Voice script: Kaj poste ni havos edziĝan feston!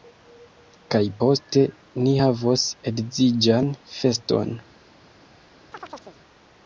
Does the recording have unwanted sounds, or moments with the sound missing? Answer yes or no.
yes